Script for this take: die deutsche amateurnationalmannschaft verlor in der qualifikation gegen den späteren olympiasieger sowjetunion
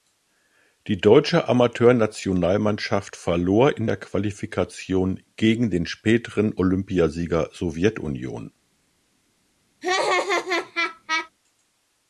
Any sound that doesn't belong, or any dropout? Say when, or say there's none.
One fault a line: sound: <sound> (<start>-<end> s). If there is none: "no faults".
sound: laugh (9.8-11.3 s)